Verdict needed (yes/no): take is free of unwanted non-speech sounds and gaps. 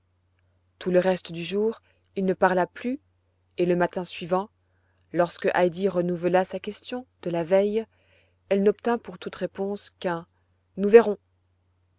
yes